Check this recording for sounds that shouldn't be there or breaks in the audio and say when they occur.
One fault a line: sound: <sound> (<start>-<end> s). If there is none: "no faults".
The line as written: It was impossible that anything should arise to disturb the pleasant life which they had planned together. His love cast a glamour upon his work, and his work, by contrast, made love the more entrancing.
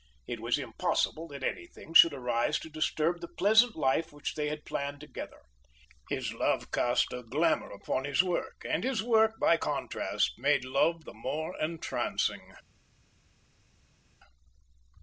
no faults